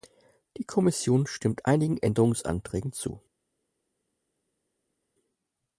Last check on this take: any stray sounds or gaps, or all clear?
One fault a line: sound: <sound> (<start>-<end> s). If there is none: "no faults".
no faults